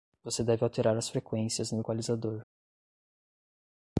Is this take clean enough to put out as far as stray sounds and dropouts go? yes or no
yes